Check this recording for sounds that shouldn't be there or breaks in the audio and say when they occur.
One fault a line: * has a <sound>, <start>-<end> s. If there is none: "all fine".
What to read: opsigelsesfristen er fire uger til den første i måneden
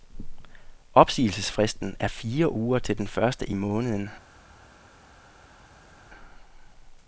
all fine